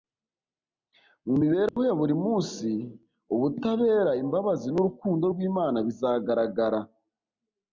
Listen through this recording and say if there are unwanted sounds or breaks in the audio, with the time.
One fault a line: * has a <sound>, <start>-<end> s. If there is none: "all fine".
* has a dropout, 1.7-1.8 s